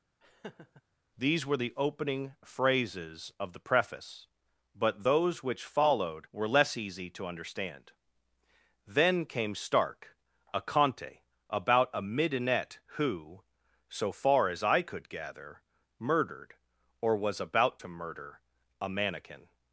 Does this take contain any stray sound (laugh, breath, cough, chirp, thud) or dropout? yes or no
yes